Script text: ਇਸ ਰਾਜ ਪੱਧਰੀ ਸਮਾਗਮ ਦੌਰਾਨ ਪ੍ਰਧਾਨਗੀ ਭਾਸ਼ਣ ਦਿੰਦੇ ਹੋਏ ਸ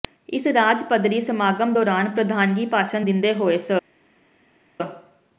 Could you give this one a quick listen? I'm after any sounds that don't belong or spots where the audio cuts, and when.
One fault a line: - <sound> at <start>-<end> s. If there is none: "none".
none